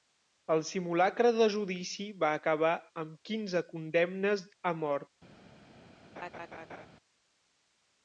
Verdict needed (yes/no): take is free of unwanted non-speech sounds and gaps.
no